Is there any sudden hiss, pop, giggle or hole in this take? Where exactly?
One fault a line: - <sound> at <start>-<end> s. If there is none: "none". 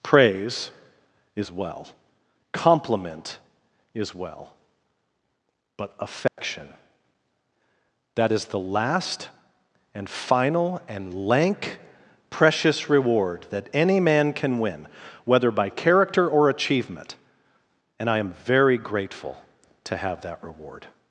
- dropout at 6.3-6.4 s